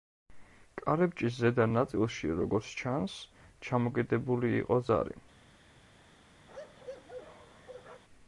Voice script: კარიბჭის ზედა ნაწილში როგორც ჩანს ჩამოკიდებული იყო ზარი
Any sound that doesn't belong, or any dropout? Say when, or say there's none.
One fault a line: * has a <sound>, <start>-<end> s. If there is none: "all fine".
* has a bark, 6.5-8.0 s